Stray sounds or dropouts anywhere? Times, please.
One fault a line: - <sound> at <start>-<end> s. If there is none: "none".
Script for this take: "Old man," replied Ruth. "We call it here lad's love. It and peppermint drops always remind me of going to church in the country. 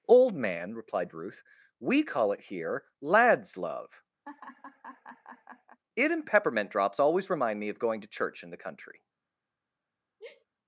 - laugh at 4.2-5.8 s
- sigh at 10.2-10.5 s